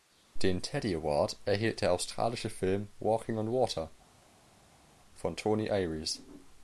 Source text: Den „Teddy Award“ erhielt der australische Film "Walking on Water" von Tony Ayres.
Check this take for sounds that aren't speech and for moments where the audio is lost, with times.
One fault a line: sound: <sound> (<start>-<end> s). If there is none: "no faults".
no faults